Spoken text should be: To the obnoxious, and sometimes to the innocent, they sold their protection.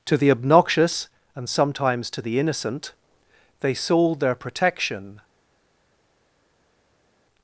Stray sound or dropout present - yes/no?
no